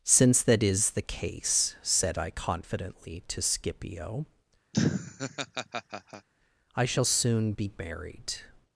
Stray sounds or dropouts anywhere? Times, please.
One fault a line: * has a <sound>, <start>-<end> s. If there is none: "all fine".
* has a laugh, 4.7-6.3 s